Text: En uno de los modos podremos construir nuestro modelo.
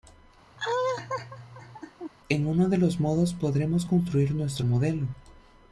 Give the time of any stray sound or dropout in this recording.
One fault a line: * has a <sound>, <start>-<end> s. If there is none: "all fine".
* has a laugh, 0.6-2.1 s